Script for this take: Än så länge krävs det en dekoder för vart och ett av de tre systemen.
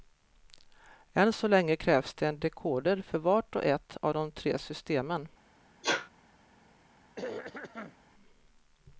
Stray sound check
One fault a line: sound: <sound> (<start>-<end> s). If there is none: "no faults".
sound: sneeze (5.8-6.1 s)
sound: throat clearing (7.2-8.0 s)